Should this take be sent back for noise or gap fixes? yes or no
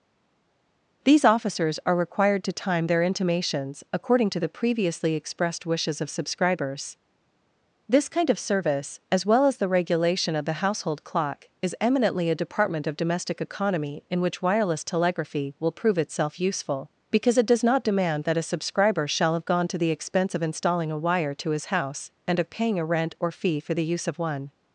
no